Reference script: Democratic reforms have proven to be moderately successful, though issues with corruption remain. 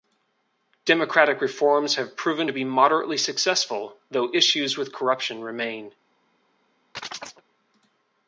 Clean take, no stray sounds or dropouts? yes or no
no